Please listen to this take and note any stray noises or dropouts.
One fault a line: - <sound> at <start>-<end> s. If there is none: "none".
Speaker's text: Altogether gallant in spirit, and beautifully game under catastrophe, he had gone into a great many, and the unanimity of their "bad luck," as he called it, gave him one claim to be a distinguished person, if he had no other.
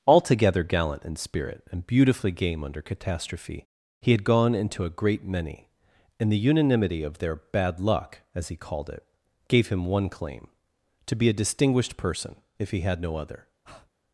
- breath at 13.6-13.9 s